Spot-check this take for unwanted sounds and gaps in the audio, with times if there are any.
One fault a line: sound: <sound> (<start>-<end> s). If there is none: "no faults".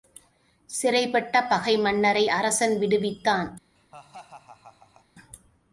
sound: laugh (3.8-5.1 s)